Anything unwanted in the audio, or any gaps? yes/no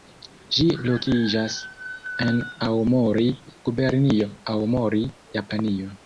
no